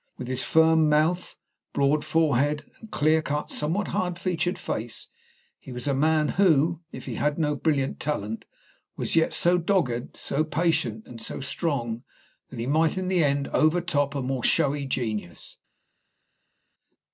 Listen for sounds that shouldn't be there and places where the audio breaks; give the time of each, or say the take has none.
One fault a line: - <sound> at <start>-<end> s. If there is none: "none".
none